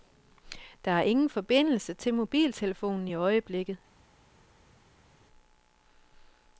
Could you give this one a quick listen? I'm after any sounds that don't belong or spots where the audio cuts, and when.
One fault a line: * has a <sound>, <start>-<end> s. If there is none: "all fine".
all fine